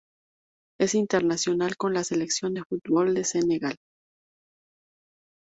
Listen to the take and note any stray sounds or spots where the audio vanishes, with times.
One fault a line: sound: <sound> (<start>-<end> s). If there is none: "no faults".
no faults